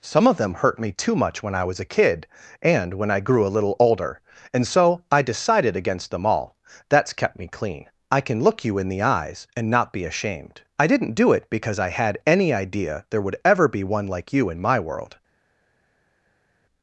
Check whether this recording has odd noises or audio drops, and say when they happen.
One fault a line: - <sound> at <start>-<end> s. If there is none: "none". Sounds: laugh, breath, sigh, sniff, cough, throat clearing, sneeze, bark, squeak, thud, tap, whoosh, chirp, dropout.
none